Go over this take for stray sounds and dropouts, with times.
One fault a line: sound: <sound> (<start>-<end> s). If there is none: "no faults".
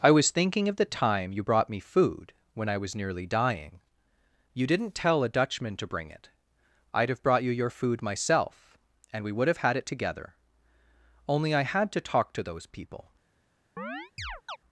sound: chirp (13.8-14.6 s)